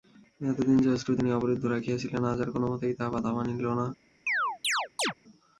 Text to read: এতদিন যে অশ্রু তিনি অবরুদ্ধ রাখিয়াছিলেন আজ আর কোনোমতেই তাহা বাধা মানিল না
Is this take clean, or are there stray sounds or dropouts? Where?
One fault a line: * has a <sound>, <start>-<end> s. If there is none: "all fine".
* has a chirp, 4.3-5.1 s